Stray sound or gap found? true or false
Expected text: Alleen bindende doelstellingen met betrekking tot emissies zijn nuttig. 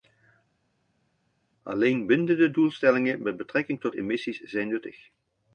false